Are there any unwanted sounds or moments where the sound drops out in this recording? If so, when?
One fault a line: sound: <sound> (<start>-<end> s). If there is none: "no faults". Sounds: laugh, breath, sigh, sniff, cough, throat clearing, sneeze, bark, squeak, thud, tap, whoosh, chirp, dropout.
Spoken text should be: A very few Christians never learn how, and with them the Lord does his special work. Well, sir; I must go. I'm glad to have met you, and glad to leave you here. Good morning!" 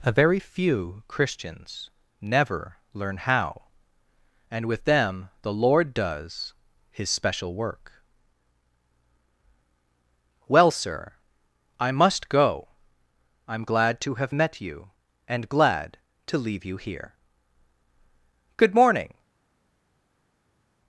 no faults